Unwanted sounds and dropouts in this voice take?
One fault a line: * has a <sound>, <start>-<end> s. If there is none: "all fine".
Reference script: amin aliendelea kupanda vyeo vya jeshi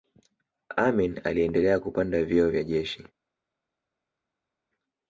all fine